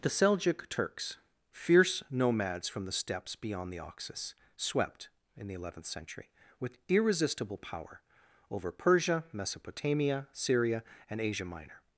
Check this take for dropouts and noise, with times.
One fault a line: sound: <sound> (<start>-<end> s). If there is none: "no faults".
no faults